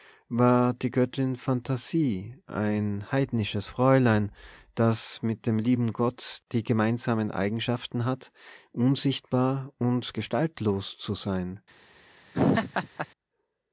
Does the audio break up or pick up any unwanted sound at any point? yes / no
yes